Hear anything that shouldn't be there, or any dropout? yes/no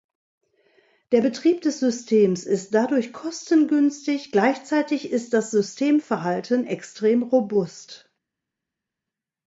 no